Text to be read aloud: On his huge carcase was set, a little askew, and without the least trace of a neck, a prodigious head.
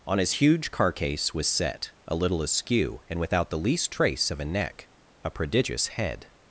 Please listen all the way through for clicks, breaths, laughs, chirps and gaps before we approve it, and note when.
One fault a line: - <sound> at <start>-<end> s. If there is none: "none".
none